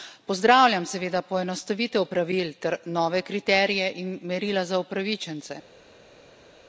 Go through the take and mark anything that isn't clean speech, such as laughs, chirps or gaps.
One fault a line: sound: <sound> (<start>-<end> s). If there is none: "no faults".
no faults